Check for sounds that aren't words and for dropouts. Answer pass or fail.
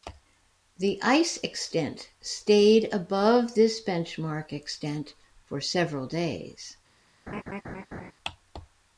fail